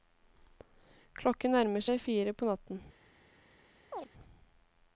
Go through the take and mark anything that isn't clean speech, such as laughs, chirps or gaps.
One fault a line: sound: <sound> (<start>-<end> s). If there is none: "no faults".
sound: chirp (3.9-4.1 s)